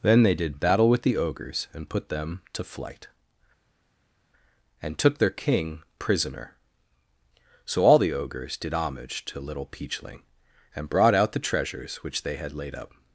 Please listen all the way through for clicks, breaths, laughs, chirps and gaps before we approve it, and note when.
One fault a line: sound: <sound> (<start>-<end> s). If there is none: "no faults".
no faults